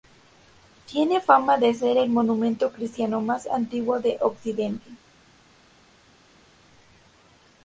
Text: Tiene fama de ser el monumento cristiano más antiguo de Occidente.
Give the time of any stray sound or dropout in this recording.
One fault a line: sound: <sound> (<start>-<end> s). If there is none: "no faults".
no faults